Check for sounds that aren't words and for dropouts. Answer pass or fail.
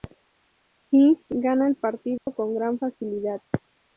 fail